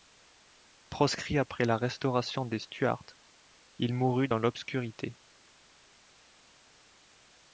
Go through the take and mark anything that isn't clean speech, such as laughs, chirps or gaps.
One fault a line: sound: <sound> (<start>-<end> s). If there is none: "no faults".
no faults